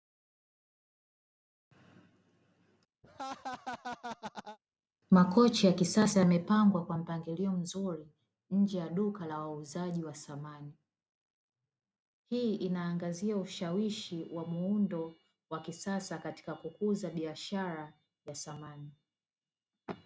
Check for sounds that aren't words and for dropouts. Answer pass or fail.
fail